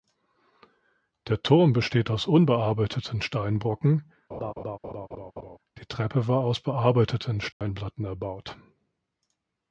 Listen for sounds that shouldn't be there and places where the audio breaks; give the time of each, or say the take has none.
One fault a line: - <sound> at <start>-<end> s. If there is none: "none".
- laugh at 4.3-5.6 s
- dropout at 7.5-7.6 s